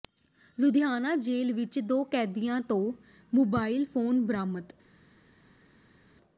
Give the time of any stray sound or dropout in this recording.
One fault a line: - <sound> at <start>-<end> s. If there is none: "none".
none